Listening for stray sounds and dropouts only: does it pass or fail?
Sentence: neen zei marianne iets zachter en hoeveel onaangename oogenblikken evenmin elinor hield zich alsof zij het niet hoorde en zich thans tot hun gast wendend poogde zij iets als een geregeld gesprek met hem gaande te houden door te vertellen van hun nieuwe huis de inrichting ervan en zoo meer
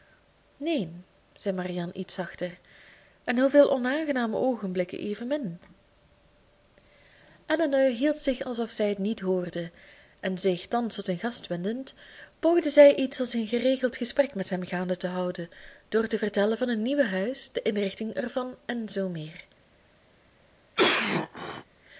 fail